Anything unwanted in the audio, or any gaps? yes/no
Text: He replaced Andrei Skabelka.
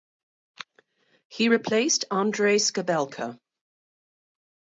no